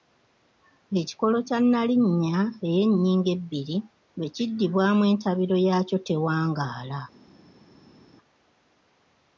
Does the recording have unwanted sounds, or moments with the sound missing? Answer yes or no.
no